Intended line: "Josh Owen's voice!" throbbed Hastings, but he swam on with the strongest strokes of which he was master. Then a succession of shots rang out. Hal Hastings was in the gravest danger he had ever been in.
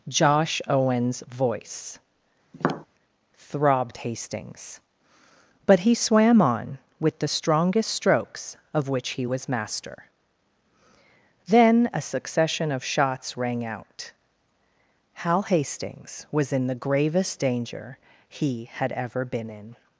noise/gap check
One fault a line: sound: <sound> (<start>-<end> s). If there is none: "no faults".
sound: tap (2.5-2.9 s)